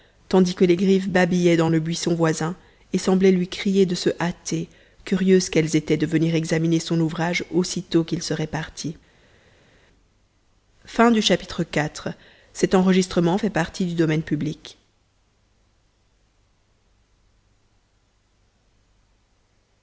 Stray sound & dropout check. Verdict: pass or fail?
pass